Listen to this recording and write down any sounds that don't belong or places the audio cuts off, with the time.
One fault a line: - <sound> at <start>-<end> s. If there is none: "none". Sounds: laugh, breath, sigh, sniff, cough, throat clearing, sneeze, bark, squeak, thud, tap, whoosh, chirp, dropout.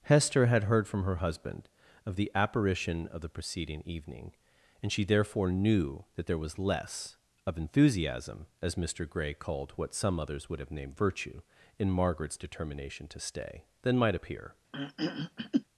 - throat clearing at 14.7-15.6 s